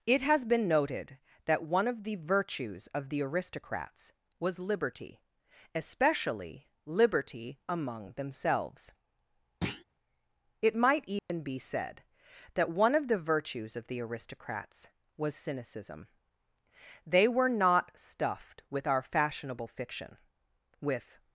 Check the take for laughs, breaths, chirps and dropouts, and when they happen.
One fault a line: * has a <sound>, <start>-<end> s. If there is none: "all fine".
* has a thud, 9.6-9.8 s
* has a dropout, 11.2-11.3 s